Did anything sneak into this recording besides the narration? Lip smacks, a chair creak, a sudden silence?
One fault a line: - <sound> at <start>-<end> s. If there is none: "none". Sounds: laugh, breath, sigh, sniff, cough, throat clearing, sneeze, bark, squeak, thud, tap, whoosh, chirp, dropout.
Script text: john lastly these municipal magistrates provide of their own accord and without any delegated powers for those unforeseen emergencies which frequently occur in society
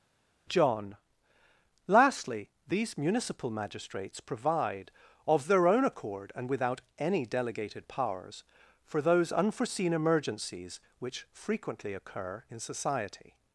none